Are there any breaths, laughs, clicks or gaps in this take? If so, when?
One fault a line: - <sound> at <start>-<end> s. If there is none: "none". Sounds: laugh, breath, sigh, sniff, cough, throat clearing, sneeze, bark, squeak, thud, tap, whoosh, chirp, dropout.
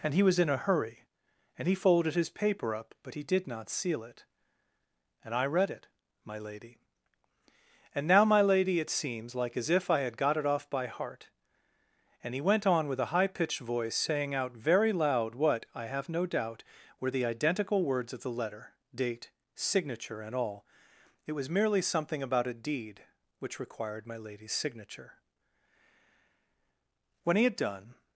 none